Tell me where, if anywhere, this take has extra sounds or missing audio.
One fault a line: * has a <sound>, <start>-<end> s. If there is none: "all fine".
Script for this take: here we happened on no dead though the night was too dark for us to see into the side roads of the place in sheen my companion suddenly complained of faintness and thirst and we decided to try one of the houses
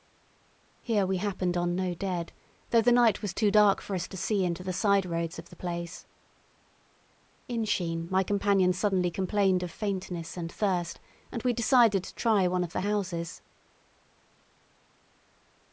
all fine